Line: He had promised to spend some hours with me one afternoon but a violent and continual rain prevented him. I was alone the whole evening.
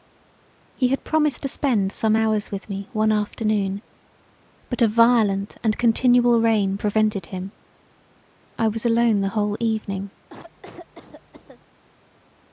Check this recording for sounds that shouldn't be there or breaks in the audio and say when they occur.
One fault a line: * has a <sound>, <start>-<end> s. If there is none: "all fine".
* has a cough, 10.3-11.7 s